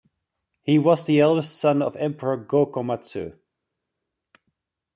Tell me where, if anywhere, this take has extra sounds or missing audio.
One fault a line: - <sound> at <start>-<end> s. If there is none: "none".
none